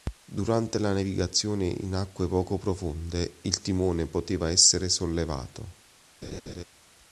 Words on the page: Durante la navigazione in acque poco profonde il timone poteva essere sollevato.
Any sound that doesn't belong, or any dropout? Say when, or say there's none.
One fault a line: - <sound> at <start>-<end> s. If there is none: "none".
- laugh at 6.2-6.6 s